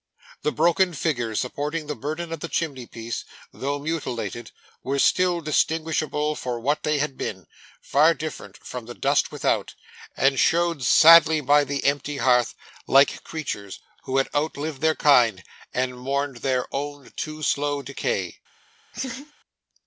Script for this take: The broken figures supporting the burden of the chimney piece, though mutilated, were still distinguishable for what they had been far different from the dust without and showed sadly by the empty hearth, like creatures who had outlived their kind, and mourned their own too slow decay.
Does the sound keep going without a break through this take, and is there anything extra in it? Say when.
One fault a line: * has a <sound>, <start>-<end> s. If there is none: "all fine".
* has a laugh, 18.9-19.3 s